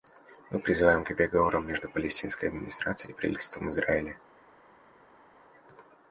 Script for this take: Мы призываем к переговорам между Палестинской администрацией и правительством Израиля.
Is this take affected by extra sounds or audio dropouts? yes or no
no